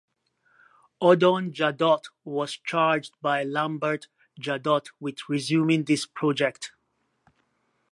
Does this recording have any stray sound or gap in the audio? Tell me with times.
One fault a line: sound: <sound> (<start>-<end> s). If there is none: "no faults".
no faults